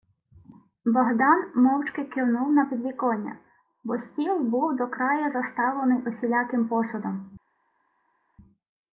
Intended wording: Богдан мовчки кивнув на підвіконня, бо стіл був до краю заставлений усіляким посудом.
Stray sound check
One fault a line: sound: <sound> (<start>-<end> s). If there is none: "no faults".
no faults